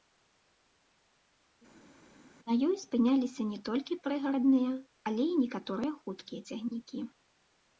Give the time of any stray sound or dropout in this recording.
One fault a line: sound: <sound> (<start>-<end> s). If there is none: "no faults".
no faults